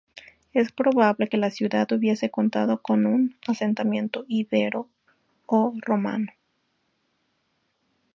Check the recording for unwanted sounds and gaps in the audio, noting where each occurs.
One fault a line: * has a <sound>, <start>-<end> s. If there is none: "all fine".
all fine